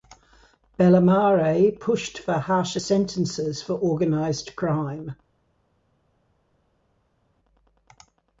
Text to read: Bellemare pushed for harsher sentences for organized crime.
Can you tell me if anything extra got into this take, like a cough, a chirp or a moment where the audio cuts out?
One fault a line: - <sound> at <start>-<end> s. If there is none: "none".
none